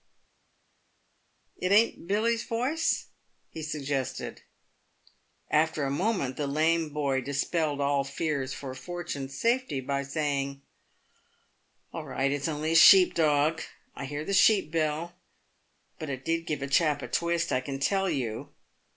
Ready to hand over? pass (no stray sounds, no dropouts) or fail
pass